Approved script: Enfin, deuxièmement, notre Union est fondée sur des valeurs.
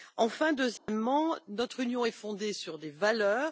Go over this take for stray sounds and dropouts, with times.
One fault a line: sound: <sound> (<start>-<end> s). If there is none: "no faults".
sound: dropout (0.8-0.9 s)